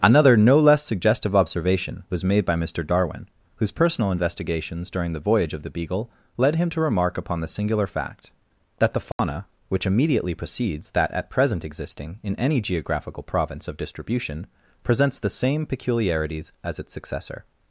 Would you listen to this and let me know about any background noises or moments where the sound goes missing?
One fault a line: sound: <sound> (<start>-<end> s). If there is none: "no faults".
sound: dropout (9.1-9.2 s)